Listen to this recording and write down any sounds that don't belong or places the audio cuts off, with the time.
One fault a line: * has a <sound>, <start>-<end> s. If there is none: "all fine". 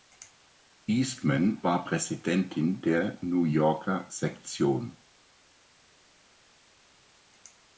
all fine